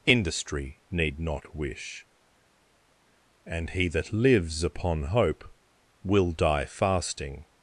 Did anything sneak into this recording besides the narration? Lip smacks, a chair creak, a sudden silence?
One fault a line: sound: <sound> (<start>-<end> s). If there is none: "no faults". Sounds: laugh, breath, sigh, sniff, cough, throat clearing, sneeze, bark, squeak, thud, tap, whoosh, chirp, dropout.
no faults